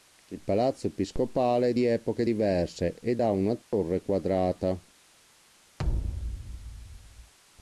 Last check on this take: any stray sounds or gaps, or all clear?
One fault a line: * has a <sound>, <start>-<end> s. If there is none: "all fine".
* has a dropout, 3.6-3.7 s
* has a thud, 5.8-7.3 s